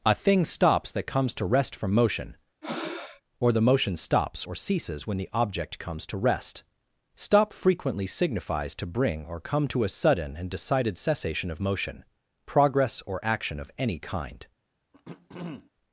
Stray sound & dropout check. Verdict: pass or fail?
fail